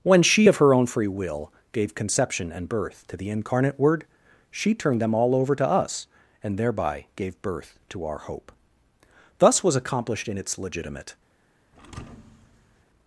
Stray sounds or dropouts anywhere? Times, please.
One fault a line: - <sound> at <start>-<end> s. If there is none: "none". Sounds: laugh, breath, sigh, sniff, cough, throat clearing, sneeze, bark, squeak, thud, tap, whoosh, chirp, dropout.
- thud at 11.7-12.8 s